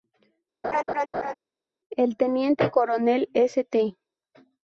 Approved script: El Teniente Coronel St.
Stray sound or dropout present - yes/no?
yes